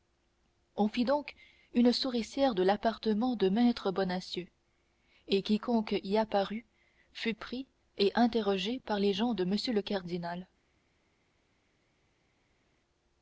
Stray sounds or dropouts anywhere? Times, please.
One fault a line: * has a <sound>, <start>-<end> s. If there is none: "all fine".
all fine